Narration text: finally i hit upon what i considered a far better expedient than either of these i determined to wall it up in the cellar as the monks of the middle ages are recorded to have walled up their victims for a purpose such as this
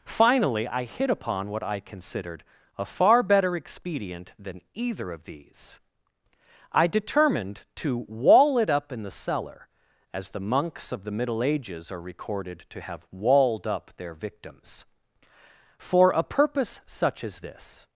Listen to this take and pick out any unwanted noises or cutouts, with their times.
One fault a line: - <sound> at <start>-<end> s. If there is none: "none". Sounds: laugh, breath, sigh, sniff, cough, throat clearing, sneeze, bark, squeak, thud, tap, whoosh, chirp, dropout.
none